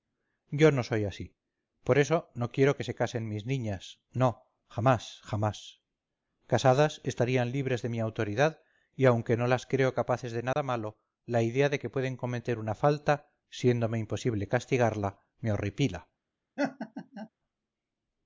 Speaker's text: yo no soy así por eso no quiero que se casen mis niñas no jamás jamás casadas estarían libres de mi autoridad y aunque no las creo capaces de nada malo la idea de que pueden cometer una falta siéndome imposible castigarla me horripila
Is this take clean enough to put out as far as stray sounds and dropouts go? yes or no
no